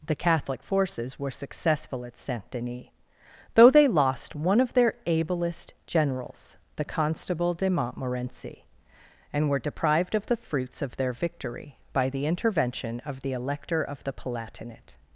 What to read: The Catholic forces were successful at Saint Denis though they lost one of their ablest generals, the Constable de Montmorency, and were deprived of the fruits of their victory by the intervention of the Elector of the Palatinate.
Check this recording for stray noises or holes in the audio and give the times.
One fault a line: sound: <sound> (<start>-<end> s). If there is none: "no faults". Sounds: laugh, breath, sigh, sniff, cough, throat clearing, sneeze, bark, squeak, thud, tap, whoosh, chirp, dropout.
no faults